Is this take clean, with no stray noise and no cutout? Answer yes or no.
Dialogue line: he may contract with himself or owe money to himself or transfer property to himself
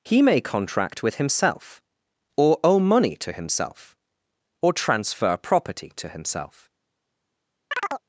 no